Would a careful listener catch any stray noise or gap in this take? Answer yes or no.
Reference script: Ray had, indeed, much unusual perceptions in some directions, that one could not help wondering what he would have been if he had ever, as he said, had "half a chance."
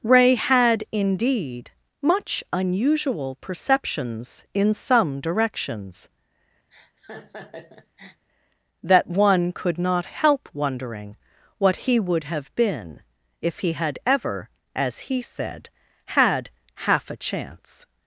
yes